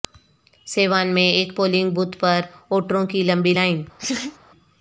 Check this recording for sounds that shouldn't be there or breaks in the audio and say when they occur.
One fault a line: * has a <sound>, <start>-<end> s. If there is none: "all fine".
* has a laugh, 4.0-4.4 s